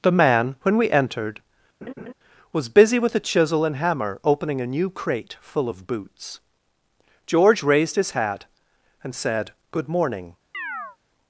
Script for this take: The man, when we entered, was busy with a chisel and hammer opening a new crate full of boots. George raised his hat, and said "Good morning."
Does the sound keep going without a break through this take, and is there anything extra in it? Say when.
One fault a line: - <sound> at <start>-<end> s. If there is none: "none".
- laugh at 1.8-2.1 s
- chirp at 10.5-11.0 s